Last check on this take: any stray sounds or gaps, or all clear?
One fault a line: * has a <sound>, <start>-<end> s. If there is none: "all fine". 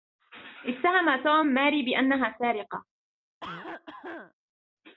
* has a cough, 3.4-4.3 s